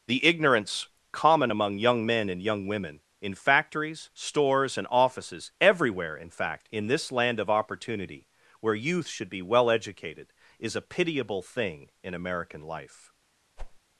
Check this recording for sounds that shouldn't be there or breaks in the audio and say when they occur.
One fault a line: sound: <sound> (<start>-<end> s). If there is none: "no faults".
sound: whoosh (13.6-13.8 s)